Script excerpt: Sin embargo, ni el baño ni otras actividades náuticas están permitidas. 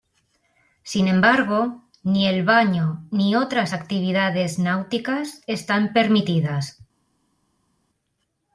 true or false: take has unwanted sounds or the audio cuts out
false